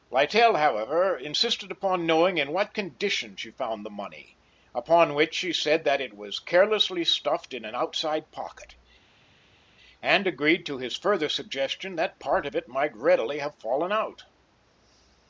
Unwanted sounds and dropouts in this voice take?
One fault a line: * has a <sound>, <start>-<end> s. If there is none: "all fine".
all fine